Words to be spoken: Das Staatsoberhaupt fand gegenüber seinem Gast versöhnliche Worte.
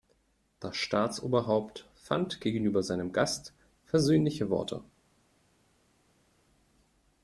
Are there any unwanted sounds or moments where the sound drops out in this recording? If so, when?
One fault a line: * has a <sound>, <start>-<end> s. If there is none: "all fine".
all fine